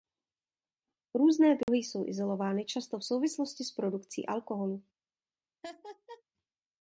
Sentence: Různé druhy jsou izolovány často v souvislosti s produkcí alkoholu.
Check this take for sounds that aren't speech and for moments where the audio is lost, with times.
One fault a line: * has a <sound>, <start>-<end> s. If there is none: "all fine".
* has a dropout, 1.6-1.7 s
* has a laugh, 5.6-6.2 s